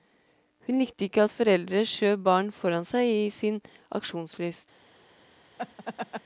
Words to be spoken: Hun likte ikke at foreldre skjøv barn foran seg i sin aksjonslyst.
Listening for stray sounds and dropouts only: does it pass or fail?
fail